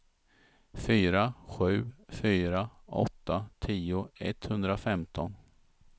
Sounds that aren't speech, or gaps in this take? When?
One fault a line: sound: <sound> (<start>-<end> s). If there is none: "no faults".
no faults